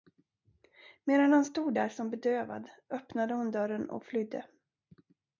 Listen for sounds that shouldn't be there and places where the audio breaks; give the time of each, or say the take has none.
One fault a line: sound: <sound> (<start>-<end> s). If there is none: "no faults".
no faults